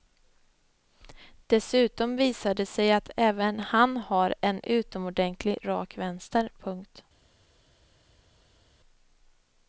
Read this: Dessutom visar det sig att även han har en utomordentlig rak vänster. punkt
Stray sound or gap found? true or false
false